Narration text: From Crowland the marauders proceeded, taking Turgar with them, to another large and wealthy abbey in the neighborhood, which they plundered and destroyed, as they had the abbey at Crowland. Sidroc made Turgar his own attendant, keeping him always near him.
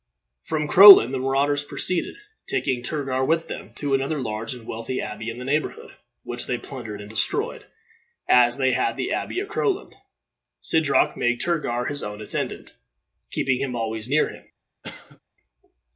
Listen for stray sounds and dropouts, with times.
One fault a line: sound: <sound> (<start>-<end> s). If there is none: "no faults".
sound: cough (14.8-15.2 s)